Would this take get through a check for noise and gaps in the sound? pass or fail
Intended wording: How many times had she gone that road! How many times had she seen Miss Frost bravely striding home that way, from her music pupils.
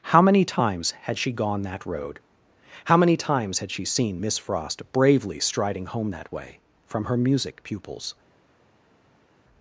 pass